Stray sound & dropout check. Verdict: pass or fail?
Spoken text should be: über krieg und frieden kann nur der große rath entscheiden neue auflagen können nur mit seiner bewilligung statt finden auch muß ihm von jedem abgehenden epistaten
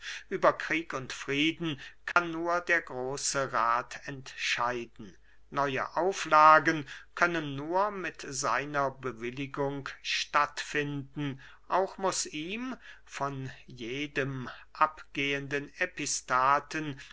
fail